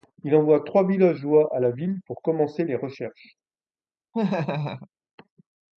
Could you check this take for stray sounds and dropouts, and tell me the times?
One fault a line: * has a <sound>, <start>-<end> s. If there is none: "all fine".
* has a laugh, 4.1-4.9 s